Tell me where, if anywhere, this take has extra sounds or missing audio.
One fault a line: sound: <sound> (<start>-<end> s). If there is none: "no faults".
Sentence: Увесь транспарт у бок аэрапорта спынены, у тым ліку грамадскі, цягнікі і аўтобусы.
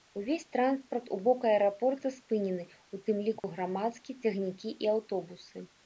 sound: dropout (3.4-3.4 s)